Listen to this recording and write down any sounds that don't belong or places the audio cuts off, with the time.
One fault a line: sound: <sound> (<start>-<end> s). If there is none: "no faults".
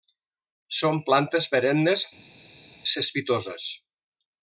no faults